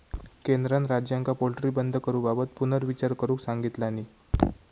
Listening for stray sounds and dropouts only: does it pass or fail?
pass